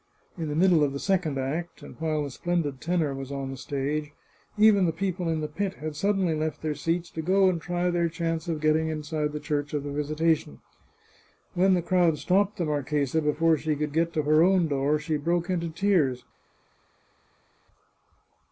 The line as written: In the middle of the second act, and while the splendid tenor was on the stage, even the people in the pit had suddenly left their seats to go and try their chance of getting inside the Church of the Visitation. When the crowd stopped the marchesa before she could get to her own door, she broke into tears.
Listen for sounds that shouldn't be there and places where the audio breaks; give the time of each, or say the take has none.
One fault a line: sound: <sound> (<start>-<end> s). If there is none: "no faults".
no faults